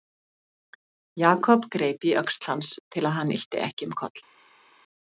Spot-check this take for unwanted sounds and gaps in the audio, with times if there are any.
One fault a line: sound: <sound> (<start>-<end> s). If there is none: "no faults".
no faults